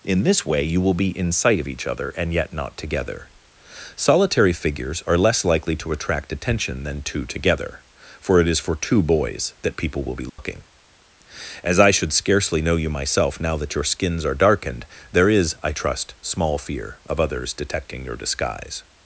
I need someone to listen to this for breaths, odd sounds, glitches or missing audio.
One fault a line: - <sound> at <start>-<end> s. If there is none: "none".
- dropout at 10.3-10.4 s